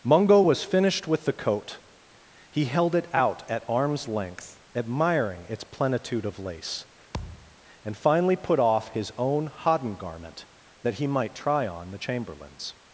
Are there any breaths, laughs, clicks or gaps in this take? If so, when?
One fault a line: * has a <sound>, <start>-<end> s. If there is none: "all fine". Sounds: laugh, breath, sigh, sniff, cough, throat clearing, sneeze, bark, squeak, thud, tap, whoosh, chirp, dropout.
* has a thud, 7.1-7.6 s